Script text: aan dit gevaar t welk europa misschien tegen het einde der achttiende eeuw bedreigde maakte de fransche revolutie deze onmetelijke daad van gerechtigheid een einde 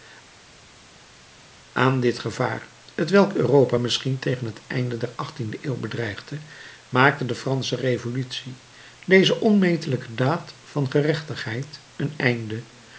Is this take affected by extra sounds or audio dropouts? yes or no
no